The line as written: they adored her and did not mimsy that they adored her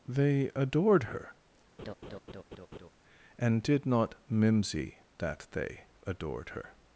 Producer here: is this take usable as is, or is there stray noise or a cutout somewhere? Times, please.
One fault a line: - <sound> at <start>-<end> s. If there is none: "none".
- laugh at 1.8-2.9 s